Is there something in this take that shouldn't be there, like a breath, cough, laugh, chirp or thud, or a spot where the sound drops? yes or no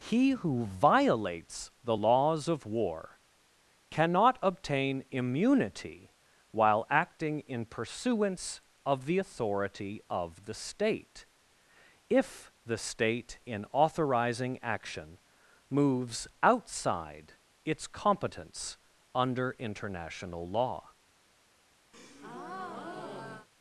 yes